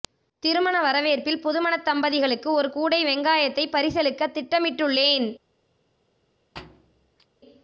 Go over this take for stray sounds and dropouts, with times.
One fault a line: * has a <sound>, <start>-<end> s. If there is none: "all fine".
* has a thud, 6.6-7.3 s